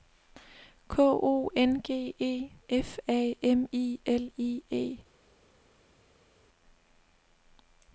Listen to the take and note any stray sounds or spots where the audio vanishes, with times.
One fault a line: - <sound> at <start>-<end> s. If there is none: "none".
none